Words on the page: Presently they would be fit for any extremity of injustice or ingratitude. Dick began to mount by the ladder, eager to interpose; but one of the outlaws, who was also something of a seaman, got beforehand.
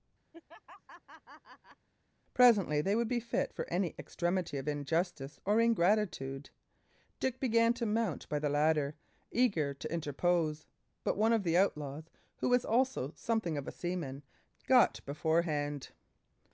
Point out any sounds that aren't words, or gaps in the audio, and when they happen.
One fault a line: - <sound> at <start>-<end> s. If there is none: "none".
- laugh at 0.3-1.9 s